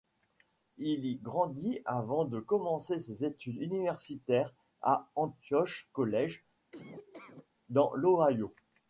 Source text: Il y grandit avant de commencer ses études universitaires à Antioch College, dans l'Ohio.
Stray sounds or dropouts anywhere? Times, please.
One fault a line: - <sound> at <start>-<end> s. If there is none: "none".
- laugh at 6.7-7.5 s